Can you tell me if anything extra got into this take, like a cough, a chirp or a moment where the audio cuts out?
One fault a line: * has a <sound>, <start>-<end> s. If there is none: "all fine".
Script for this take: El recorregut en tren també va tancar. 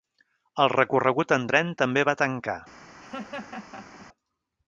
* has a laugh, 3.0-4.1 s